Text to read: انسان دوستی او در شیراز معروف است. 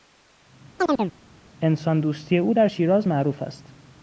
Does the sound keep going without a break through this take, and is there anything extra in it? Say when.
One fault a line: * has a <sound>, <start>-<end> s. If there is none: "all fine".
* has a chirp, 0.8-1.1 s